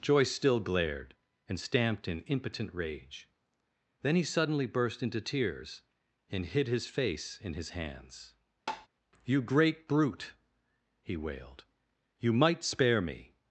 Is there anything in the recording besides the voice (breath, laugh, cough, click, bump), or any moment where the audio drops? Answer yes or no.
yes